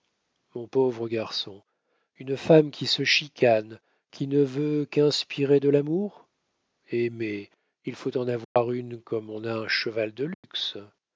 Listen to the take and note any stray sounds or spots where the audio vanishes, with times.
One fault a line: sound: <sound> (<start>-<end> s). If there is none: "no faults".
sound: dropout (8.4-8.6 s)
sound: dropout (10.3-10.4 s)